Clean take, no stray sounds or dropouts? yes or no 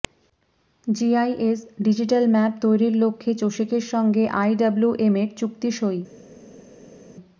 yes